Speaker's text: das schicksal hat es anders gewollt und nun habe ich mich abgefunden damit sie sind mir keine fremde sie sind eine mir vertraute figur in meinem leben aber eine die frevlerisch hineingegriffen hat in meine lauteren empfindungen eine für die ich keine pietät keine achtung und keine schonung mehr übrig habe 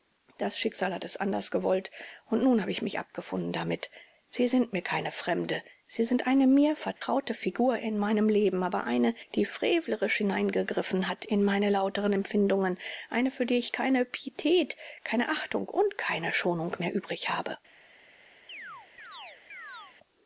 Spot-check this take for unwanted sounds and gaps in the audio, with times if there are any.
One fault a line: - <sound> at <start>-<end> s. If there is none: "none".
- dropout at 7.0-7.0 s
- chirp at 18.5-20.0 s